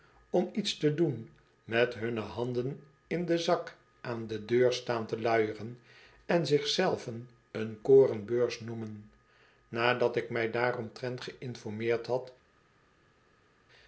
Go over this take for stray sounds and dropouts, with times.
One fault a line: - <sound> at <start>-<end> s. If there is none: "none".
none